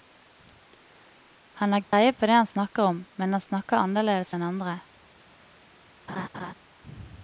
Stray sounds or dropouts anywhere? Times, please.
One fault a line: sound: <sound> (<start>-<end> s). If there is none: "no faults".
sound: dropout (1.8-1.9 s)
sound: laugh (6.1-6.5 s)